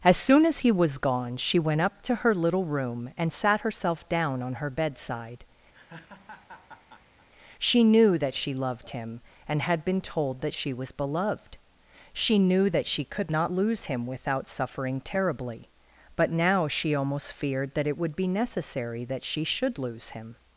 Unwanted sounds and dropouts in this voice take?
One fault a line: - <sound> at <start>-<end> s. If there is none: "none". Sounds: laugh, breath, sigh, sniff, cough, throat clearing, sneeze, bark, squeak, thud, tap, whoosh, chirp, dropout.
- laugh at 5.7-7.3 s